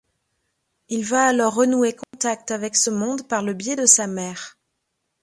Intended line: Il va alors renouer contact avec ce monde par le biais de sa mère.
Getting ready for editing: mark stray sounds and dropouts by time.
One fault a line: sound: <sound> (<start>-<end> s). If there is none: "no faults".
sound: dropout (2.0-2.1 s)